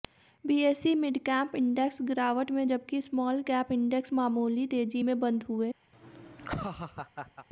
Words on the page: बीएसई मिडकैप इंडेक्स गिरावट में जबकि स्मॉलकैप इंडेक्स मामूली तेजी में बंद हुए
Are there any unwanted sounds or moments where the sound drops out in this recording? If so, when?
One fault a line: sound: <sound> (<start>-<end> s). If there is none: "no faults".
sound: laugh (5.9-7.5 s)